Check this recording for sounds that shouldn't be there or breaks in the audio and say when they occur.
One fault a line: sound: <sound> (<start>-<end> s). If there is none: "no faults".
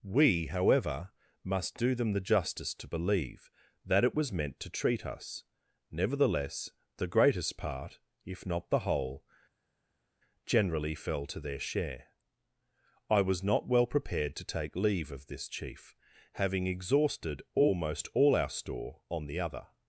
no faults